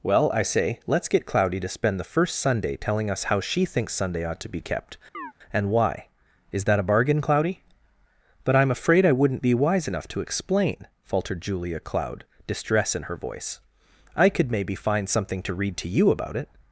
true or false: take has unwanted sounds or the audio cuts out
true